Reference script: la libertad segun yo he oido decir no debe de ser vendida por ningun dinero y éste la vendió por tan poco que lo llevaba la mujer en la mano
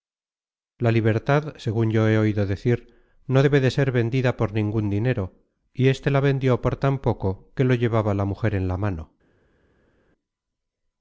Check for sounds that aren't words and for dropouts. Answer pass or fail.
pass